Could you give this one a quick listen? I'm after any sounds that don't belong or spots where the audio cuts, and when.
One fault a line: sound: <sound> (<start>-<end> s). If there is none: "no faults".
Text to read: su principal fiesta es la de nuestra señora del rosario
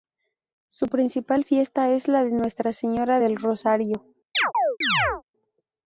sound: chirp (4.3-5.2 s)